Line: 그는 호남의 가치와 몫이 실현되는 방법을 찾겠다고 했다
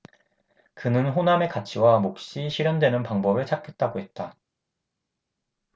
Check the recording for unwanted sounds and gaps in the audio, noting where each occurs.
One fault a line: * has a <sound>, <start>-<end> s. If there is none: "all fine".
all fine